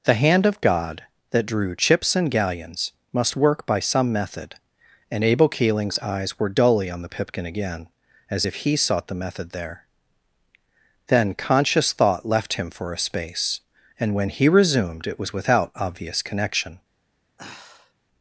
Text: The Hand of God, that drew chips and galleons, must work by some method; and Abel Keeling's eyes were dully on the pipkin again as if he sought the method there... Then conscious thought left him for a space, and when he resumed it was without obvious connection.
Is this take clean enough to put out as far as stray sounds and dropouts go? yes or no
no